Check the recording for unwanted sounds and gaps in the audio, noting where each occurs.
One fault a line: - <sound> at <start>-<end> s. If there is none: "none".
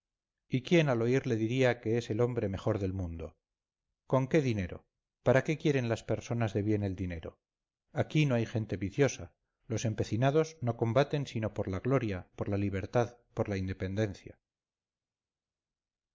none